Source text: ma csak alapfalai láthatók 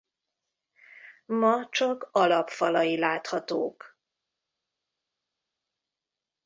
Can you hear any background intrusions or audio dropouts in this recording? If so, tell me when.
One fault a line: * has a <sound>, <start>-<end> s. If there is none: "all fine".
all fine